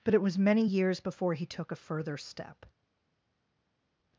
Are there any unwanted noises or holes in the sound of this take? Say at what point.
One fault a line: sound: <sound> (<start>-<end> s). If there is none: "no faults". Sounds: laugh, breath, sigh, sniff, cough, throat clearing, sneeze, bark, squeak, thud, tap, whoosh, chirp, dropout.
no faults